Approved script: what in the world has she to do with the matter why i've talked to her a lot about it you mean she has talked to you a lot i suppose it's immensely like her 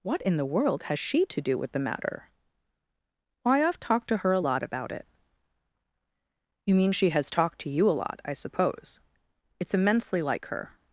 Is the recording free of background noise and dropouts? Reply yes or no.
yes